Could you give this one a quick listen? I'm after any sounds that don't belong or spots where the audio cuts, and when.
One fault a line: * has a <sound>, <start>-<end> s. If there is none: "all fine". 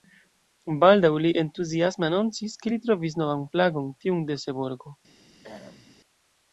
* has a throat clearing, 5.4-6.0 s